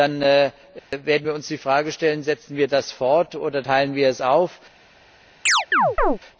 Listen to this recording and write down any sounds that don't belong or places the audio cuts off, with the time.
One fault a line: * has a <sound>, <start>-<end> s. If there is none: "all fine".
* has a dropout, 0.8-0.9 s
* has a chirp, 5.5-6.2 s